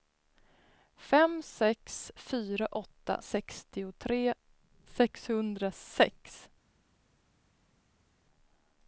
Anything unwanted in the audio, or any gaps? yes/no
no